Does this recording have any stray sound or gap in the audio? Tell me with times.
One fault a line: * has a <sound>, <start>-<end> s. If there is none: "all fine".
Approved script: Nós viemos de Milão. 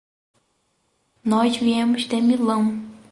all fine